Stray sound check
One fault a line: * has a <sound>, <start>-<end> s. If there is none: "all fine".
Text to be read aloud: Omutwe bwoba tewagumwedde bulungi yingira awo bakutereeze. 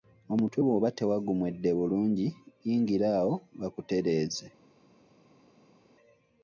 all fine